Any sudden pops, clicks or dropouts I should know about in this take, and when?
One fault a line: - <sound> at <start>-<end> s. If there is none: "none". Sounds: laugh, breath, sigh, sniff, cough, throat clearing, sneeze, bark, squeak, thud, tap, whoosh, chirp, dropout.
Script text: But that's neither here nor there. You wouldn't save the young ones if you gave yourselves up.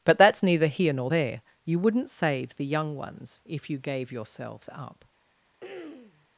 - throat clearing at 5.6-6.3 s